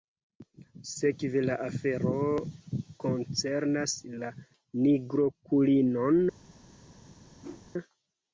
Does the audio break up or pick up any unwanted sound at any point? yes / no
yes